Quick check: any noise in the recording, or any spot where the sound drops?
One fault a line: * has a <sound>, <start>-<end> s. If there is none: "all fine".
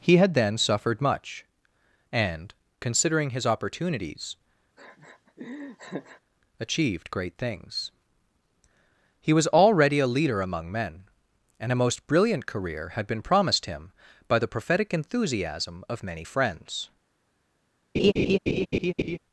* has a laugh, 4.8-6.2 s
* has a laugh, 17.9-19.2 s